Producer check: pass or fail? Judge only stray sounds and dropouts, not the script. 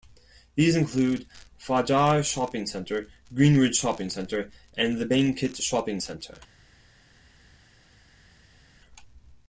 pass